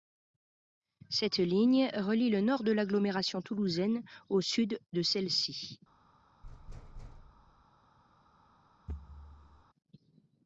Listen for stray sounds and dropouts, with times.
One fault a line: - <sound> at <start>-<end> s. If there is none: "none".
- thud at 6.4-7.7 s
- thud at 8.9-9.6 s